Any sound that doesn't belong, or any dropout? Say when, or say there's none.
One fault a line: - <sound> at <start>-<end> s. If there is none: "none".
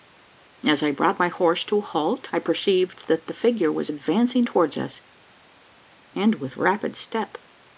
none